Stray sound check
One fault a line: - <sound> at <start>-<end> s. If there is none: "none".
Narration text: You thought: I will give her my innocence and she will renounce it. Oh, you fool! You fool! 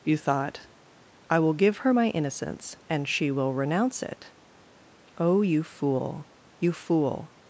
none